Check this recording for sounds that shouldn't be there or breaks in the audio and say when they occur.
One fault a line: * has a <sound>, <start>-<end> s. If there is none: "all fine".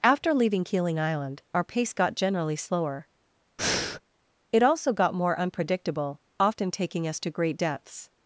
* has a breath, 3.6-4.0 s